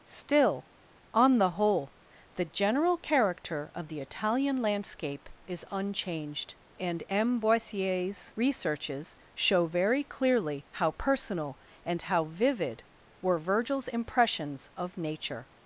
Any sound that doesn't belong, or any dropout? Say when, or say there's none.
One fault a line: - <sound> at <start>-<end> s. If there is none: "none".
none